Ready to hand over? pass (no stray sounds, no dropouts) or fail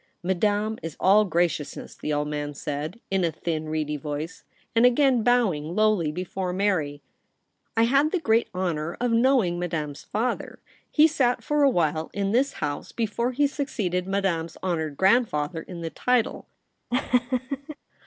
fail